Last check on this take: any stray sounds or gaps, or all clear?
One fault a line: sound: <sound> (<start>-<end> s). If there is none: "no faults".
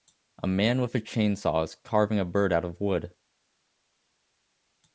no faults